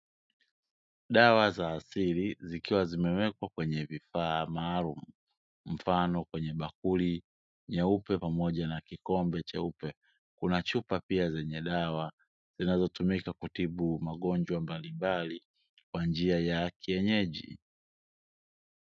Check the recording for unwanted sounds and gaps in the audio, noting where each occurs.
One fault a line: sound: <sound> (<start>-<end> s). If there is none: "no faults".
no faults